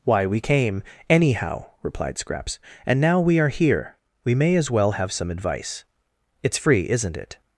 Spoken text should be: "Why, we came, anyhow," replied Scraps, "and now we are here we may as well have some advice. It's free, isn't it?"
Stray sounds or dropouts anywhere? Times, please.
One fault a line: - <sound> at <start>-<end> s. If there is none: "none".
none